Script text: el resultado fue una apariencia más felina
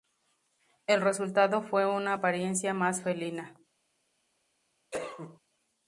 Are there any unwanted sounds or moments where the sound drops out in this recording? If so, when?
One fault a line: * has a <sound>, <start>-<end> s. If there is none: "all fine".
* has a cough, 4.9-5.4 s